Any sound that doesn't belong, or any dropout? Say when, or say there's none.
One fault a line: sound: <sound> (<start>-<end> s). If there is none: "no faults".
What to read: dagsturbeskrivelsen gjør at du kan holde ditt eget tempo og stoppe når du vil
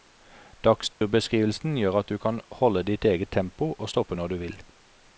sound: dropout (0.9-1.0 s)